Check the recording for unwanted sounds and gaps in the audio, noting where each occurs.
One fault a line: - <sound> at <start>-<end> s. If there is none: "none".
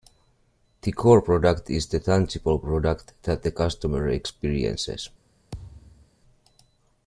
- thud at 5.5-6.1 s